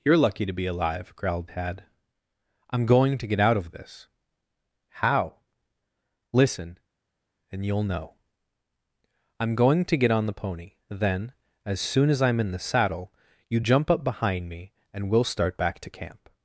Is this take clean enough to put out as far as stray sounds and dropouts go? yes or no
yes